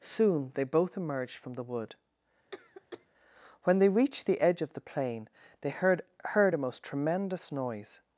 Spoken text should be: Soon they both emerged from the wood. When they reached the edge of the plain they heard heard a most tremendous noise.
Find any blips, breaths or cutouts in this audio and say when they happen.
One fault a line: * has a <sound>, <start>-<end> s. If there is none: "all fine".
* has a cough, 2.5-3.1 s